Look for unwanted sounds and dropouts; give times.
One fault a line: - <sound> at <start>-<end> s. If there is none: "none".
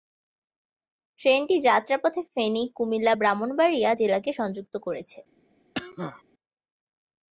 - cough at 5.7-6.2 s